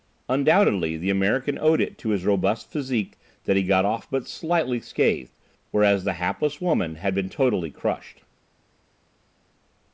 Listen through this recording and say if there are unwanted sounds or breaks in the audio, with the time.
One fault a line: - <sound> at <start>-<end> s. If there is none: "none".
none